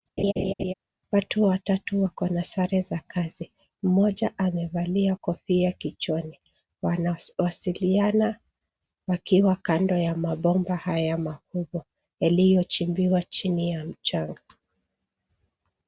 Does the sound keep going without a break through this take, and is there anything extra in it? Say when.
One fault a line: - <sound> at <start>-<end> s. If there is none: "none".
- laugh at 0.2-0.7 s